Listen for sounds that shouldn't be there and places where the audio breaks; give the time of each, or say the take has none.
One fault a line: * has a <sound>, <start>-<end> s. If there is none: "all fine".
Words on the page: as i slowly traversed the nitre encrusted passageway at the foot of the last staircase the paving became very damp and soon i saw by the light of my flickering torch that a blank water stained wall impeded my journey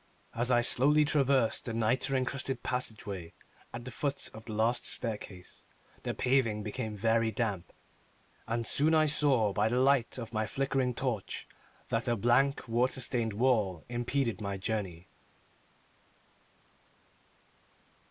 all fine